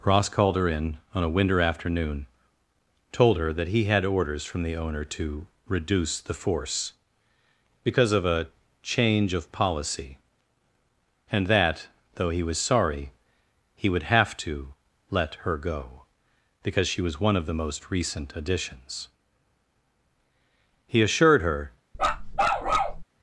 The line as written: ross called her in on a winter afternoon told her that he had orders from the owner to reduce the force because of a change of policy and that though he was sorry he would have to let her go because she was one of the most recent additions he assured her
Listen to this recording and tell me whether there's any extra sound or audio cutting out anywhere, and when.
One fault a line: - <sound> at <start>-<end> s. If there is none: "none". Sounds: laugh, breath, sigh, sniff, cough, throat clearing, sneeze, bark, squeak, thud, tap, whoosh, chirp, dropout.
- bark at 21.9-23.0 s